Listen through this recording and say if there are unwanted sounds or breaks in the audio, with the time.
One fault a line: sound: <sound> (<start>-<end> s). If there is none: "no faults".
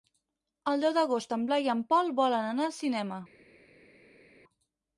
no faults